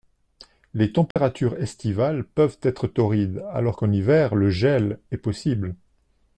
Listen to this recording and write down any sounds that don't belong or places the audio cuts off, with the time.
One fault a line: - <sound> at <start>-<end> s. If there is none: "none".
- dropout at 1.1-1.2 s